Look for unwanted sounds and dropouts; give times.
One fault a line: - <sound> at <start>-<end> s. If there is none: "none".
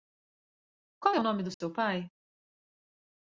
- dropout at 1.5-1.6 s